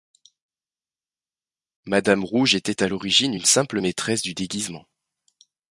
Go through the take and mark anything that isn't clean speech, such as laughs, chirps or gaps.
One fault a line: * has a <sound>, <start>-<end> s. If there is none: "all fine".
all fine